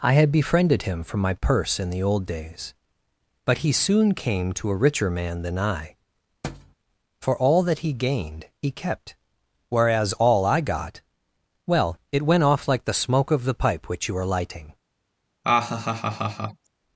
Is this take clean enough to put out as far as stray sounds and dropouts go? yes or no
no